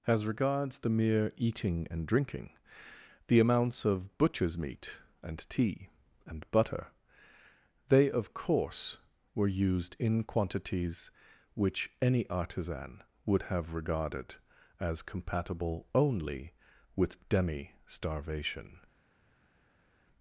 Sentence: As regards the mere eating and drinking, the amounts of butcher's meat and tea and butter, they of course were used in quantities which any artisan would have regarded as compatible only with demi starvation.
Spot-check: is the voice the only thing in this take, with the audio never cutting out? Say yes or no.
yes